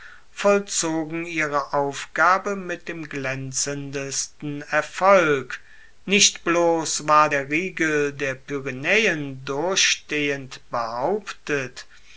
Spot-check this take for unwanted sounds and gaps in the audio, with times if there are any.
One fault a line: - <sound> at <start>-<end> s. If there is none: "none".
none